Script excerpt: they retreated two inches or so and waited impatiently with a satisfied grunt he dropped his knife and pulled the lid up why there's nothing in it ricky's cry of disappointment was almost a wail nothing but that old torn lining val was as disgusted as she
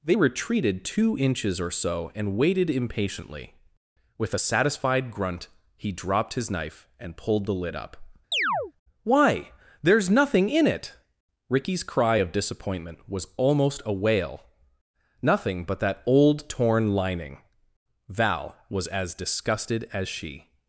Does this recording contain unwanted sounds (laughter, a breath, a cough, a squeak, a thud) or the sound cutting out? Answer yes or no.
yes